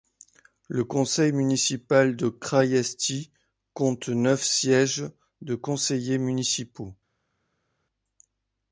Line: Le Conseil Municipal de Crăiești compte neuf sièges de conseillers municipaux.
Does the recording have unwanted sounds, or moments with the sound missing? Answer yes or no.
no